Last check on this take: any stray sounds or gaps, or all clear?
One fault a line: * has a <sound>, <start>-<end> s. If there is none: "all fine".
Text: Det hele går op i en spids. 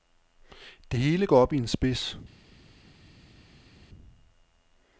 all fine